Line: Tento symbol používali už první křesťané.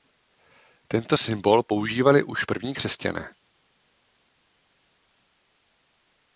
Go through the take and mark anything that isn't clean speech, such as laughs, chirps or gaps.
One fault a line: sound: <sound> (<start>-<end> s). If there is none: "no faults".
no faults